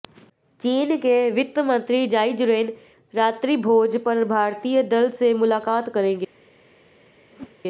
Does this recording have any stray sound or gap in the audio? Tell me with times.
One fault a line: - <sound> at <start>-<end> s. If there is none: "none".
- whoosh at 7.3-7.6 s